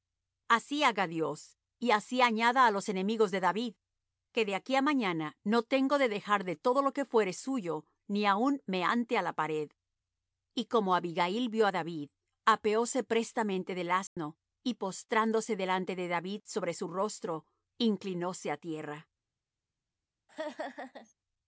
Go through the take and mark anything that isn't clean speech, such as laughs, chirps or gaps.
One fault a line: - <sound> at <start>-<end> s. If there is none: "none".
- dropout at 14.1-14.2 s
- laugh at 20.3-21.1 s